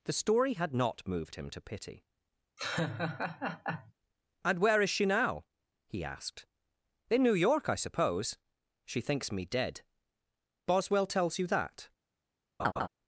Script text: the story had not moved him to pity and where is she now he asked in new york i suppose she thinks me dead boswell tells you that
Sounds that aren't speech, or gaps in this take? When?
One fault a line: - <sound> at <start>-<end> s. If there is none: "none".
- laugh at 2.6-3.9 s
- laugh at 12.6-12.9 s